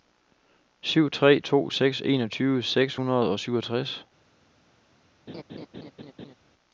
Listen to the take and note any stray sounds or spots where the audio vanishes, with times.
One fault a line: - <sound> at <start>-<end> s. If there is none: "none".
- laugh at 5.3-6.3 s